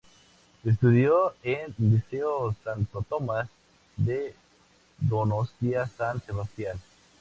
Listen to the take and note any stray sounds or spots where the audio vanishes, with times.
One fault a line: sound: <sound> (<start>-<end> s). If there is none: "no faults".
no faults